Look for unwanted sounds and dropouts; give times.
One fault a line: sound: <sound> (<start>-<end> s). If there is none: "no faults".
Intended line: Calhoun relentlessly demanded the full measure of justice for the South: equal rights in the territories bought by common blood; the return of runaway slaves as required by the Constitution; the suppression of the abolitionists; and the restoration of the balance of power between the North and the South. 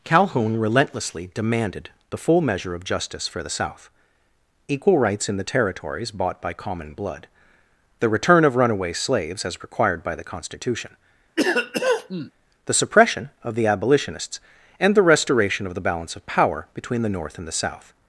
sound: cough (11.4-12.3 s)